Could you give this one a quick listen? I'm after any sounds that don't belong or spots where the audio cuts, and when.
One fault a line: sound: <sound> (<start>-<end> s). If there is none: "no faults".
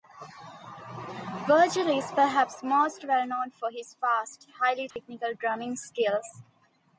sound: dropout (4.9-5.0 s)